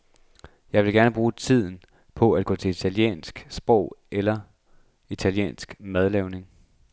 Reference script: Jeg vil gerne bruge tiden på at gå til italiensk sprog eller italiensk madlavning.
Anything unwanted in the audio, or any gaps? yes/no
no